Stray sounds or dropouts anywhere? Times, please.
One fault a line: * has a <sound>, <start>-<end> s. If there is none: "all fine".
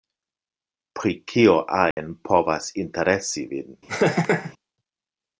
* has a dropout, 1.9-2.0 s
* has a laugh, 3.9-4.5 s